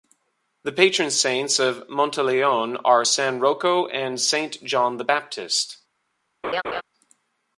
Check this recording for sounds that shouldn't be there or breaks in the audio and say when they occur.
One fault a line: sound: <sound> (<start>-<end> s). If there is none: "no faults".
sound: laugh (6.4-6.8 s)